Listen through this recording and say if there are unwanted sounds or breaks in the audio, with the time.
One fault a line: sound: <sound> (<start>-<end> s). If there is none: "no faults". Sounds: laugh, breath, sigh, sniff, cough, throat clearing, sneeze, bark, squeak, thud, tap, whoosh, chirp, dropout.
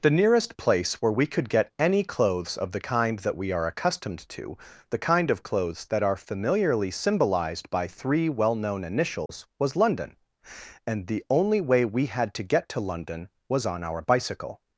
sound: dropout (9.3-9.3 s)